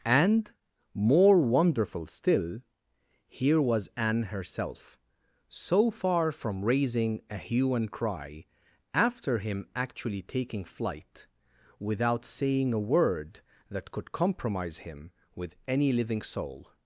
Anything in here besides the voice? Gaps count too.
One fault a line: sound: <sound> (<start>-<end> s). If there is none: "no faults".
no faults